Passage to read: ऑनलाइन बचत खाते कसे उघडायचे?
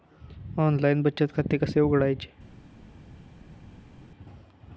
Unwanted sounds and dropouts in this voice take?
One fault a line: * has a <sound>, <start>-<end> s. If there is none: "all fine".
all fine